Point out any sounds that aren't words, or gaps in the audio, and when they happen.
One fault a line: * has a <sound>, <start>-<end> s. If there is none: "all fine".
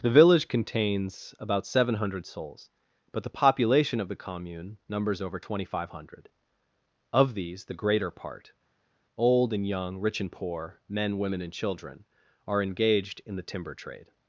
all fine